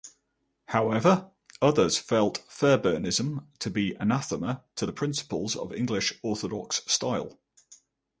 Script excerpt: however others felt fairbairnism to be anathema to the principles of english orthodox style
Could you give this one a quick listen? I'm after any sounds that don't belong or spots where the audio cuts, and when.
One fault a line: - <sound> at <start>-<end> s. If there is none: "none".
none